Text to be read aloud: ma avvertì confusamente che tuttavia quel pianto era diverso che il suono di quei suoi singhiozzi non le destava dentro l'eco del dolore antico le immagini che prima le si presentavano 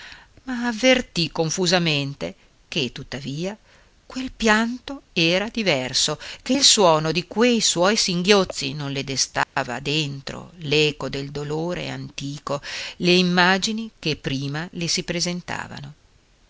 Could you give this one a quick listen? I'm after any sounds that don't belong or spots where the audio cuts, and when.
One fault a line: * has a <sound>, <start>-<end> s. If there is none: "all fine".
* has a dropout, 9.4-9.6 s